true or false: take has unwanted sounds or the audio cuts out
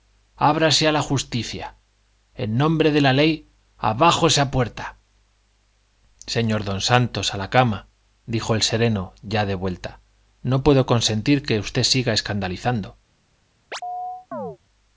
true